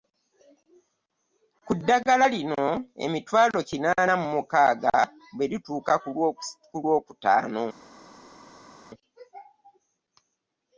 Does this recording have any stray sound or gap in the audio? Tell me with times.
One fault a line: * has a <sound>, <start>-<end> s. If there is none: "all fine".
all fine